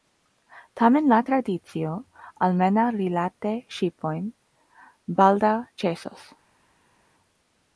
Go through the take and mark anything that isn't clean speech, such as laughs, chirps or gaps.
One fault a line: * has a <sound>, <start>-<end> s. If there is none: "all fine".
all fine